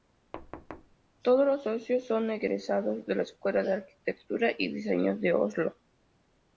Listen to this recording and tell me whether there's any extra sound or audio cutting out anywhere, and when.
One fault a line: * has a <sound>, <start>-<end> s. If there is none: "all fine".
* has a thud, 0.3-1.0 s